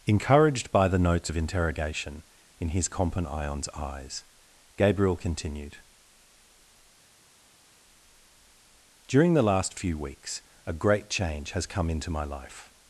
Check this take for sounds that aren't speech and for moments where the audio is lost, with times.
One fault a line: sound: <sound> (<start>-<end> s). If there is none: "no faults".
no faults